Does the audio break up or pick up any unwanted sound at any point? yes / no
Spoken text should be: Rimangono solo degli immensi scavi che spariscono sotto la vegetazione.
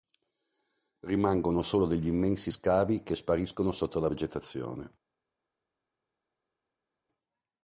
no